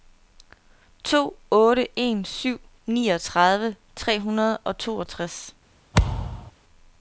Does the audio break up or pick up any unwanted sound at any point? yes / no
yes